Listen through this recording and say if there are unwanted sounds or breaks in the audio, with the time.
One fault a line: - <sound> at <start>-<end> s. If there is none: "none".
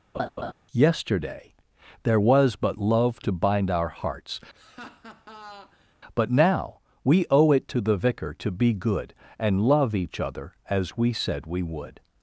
- laugh at 0.1-0.5 s
- laugh at 4.5-5.9 s